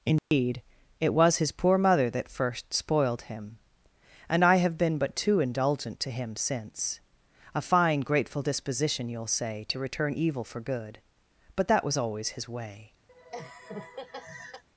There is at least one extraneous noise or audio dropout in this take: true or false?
true